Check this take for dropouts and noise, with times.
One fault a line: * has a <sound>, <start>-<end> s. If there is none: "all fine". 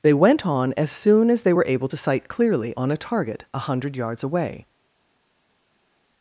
all fine